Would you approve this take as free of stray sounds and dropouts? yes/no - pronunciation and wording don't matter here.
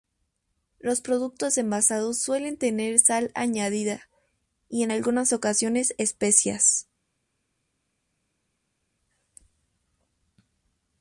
yes